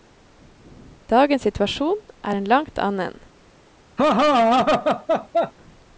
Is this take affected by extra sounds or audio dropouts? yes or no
yes